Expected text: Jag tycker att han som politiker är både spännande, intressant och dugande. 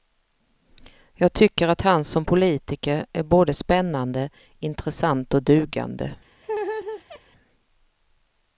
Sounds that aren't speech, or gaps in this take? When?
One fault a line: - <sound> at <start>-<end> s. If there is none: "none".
- laugh at 6.4-7.2 s